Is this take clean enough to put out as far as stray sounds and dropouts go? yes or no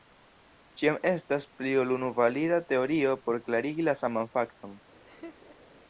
no